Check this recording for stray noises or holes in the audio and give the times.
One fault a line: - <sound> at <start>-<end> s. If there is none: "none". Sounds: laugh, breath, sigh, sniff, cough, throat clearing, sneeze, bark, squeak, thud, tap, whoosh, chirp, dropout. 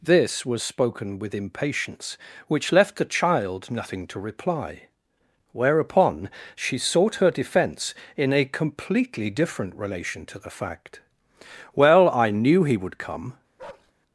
- bark at 13.6-13.9 s